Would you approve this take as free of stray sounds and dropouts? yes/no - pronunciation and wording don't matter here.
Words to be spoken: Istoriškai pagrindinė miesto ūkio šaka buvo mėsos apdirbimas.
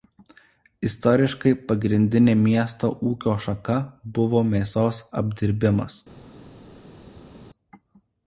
yes